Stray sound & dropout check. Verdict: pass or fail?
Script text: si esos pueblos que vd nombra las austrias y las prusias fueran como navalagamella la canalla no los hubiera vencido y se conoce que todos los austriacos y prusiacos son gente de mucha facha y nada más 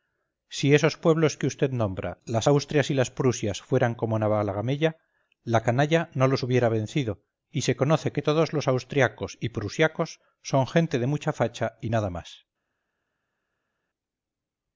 pass